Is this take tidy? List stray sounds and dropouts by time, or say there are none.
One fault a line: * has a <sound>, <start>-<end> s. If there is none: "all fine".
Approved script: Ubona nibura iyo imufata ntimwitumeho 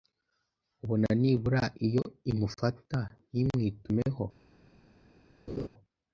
* has a laugh, 5.5-5.7 s